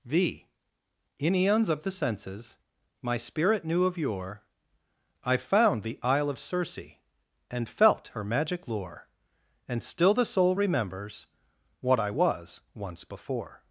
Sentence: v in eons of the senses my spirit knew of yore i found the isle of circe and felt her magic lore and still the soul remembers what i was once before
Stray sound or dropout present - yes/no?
no